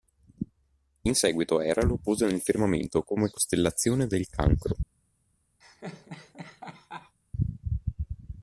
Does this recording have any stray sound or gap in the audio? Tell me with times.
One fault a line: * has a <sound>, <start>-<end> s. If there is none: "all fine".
* has a laugh, 5.6-7.2 s